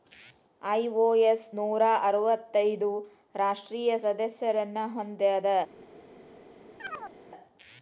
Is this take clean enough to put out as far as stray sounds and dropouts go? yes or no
no